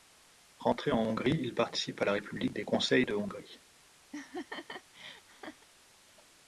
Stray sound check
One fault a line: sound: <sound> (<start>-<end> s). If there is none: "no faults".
sound: laugh (4.1-5.7 s)